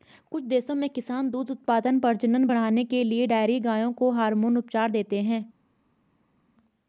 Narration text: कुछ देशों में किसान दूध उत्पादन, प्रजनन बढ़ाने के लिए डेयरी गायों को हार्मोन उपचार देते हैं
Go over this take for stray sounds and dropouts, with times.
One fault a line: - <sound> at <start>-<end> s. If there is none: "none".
none